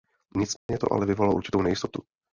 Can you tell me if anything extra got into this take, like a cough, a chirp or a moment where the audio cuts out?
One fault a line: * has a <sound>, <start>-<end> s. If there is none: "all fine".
* has a dropout, 0.6-0.7 s